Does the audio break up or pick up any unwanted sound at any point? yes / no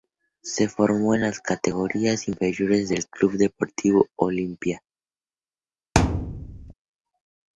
yes